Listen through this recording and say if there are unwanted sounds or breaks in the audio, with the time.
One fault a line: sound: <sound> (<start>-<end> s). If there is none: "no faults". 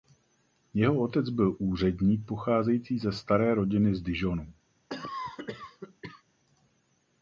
sound: cough (4.9-6.2 s)